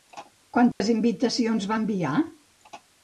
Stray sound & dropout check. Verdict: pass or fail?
fail